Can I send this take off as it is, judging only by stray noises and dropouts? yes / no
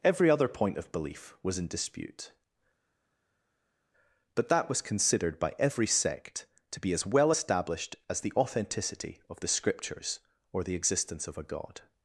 yes